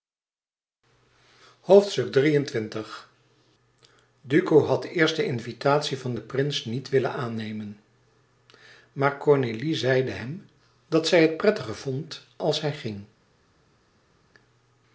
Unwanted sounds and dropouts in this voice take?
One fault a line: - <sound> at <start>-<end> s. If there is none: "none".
none